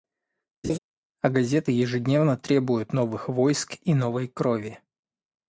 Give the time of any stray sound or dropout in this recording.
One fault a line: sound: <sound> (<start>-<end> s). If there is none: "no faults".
sound: laugh (0.6-0.8 s)